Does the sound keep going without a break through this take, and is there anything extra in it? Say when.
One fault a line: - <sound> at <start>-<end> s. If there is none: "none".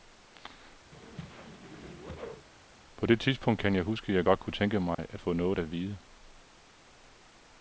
- whoosh at 0.9-2.5 s
- dropout at 4.9-5.0 s